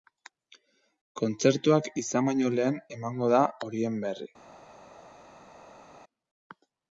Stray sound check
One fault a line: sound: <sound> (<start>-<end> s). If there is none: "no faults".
no faults